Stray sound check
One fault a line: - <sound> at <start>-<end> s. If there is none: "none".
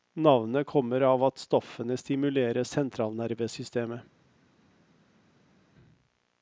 none